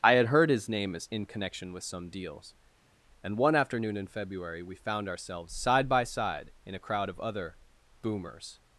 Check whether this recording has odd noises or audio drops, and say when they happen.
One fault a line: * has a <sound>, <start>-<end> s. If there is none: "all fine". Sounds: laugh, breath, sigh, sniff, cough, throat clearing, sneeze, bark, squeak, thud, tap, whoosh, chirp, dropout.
all fine